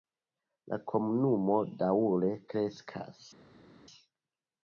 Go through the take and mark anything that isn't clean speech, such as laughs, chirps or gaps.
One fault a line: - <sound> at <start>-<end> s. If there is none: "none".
none